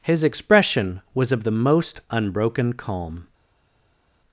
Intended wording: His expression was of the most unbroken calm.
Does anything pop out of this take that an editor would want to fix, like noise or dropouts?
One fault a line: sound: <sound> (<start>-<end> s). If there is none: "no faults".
no faults